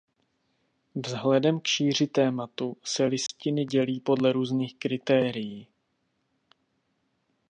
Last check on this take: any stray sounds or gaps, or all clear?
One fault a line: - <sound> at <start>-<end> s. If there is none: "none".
- dropout at 3.3-3.3 s